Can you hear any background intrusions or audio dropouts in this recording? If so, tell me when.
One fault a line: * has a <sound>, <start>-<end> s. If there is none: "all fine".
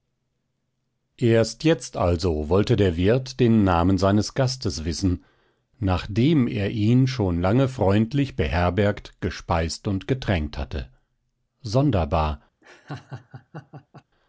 * has a laugh, 12.6-14.0 s